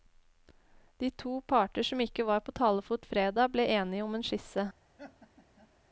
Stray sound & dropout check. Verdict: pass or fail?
fail